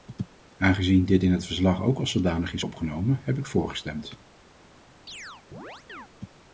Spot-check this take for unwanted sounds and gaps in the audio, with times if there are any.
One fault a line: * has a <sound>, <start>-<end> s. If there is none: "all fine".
* has a chirp, 5.1-6.1 s